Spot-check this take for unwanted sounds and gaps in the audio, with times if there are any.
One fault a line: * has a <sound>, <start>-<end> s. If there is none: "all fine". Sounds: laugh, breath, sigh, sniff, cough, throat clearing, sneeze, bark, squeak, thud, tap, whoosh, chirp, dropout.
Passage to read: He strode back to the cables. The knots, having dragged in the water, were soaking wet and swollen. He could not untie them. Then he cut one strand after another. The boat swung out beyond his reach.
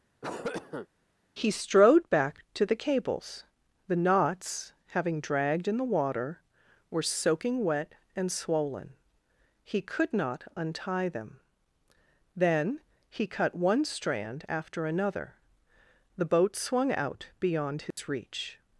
* has a cough, 0.2-0.9 s
* has a dropout, 17.9-18.0 s